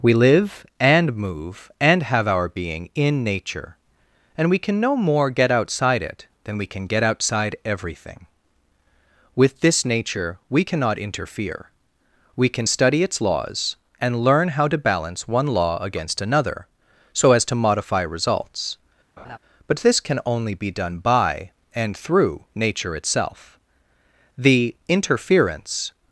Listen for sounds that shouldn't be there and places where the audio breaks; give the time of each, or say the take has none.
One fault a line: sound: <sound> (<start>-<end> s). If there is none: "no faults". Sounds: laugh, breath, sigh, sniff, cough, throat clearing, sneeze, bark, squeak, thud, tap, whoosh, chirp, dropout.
sound: laugh (19.2-19.4 s)